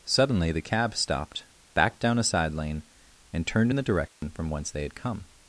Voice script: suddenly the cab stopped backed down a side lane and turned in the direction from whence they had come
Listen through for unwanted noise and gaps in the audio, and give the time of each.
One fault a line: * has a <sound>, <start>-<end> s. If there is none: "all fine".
* has a dropout, 4.1-4.2 s